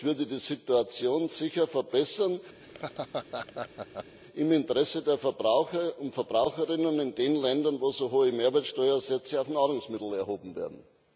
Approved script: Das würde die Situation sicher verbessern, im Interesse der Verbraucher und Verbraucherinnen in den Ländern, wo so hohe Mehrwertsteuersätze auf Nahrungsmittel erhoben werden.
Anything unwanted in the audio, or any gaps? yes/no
yes